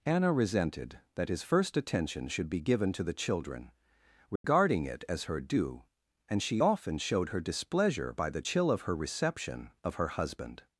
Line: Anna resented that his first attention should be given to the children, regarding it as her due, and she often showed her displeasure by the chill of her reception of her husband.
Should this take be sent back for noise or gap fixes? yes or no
yes